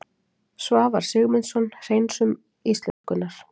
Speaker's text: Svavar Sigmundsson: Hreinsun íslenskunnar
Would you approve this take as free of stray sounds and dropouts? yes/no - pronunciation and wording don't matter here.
no